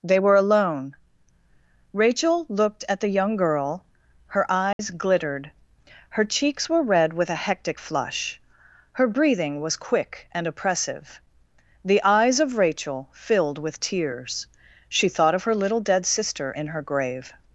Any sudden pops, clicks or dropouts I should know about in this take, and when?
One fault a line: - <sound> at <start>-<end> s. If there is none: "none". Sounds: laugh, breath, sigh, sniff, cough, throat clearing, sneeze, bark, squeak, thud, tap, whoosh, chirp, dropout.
- dropout at 4.7-4.8 s